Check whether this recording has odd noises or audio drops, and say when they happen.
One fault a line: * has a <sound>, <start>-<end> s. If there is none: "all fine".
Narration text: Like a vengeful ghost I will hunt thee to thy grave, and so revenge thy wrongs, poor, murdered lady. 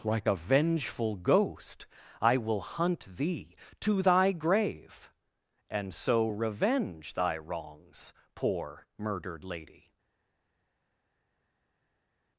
all fine